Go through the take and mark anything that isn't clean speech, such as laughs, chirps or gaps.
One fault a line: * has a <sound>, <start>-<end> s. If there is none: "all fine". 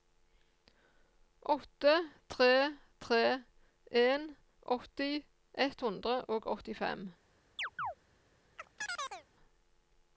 * has a chirp, 7.6-7.9 s
* has a chirp, 8.6-9.3 s